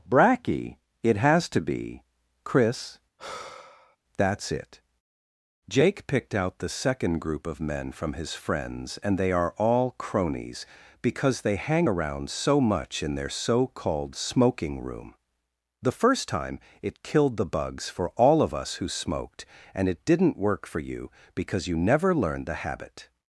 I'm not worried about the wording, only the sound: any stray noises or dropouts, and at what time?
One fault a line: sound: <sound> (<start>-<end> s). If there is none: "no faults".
sound: sigh (3.2-4.0 s)